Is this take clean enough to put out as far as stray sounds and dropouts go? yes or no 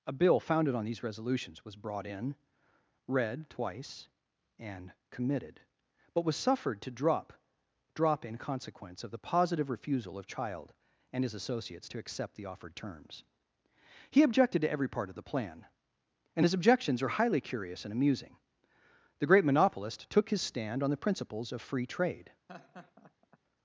no